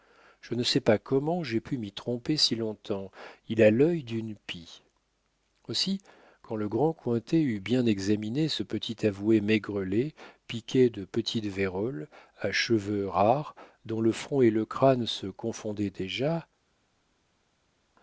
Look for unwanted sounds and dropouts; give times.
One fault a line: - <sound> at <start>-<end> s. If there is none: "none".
none